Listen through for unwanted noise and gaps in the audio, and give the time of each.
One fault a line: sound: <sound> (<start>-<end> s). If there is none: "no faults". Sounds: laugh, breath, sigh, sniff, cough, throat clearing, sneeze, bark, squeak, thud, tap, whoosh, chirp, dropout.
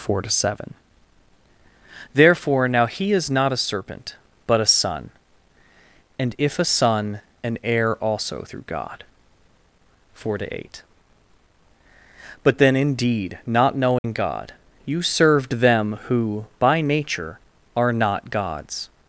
sound: dropout (14.0-14.0 s)